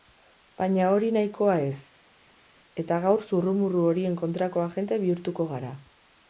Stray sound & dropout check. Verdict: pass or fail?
pass